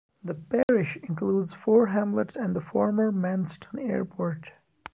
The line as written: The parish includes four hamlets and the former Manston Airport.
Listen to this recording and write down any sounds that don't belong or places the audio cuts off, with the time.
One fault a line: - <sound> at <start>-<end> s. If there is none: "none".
- dropout at 0.6-0.7 s